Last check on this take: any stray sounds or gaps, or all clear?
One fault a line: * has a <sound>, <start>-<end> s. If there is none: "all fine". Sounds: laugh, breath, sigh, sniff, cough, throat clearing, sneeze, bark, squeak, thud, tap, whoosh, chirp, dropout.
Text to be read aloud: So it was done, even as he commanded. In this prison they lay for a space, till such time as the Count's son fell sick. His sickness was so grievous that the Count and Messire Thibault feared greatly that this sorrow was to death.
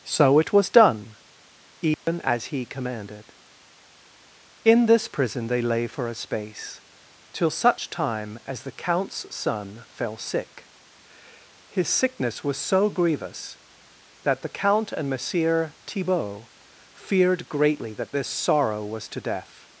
* has a dropout, 1.9-2.1 s